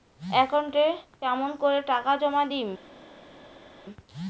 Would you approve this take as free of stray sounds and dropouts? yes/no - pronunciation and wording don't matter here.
yes